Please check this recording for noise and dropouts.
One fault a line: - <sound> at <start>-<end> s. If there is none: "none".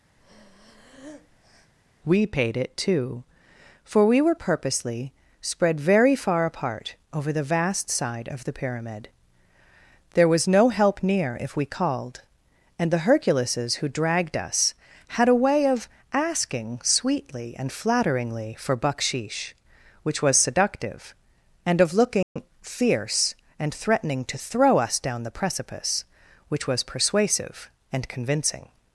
- breath at 0.2-1.7 s
- dropout at 22.2-22.4 s